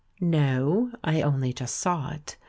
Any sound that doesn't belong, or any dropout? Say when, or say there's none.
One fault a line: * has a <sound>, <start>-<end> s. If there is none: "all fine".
all fine